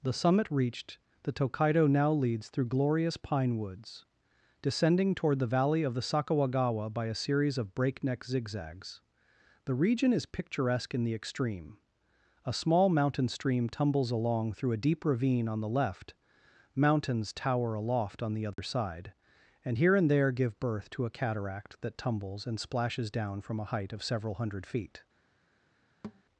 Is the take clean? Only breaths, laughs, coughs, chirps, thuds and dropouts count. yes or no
no